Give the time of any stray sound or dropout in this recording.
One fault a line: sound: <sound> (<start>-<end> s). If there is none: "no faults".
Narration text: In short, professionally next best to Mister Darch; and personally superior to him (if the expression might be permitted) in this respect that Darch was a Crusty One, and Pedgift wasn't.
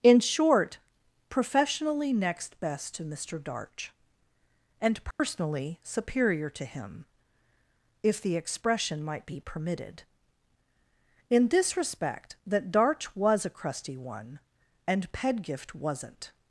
sound: dropout (5.1-5.2 s)